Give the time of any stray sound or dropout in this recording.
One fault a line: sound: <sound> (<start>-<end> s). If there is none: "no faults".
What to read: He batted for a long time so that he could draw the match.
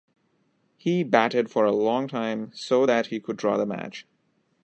no faults